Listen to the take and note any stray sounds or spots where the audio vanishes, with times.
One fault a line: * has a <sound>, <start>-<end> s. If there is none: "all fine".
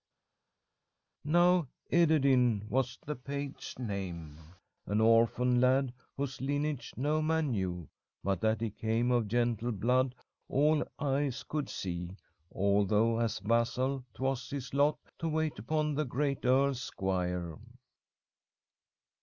all fine